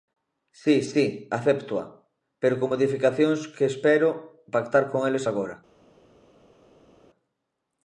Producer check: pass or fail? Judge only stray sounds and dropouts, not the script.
pass